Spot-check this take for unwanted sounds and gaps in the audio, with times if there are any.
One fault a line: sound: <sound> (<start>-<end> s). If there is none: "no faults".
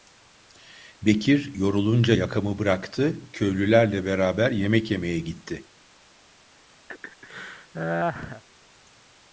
sound: laugh (6.9-8.4 s)